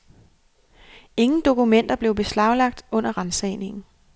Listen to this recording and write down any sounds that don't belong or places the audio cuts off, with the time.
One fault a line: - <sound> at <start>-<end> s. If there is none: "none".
none